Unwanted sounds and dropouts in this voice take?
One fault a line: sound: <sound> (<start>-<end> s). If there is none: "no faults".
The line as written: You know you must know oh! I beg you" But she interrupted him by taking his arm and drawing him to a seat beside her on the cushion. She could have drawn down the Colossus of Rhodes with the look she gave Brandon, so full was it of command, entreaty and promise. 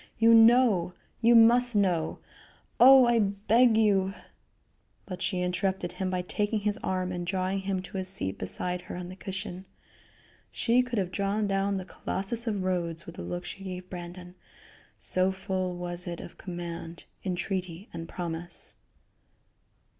no faults